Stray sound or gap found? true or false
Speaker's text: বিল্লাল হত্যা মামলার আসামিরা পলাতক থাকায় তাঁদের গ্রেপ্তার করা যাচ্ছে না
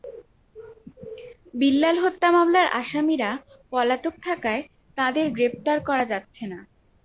false